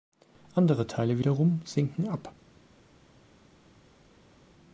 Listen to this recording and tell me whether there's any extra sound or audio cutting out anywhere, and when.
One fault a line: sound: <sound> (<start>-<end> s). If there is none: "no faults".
no faults